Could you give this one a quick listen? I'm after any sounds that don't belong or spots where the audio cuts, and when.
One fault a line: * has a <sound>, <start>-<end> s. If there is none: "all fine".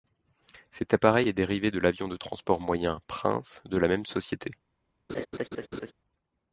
* has a laugh, 5.1-5.9 s